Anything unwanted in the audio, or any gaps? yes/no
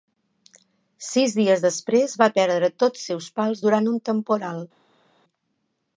no